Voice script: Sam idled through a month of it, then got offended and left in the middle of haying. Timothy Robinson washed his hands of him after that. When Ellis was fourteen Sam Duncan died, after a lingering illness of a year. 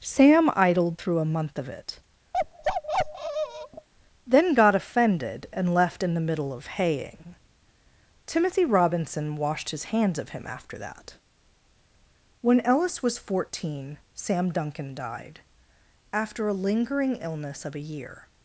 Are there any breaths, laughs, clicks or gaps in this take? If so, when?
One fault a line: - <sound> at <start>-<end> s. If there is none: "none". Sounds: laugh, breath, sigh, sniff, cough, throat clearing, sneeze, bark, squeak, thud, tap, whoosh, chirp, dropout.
- bark at 2.3-3.9 s